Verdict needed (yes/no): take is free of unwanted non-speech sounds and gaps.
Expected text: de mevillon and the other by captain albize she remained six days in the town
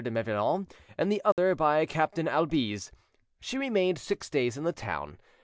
no